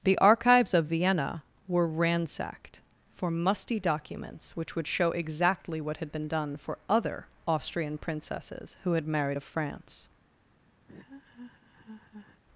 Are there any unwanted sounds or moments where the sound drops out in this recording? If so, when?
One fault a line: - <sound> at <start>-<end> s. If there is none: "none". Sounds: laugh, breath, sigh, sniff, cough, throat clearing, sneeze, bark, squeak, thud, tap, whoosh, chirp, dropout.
- laugh at 10.9-12.4 s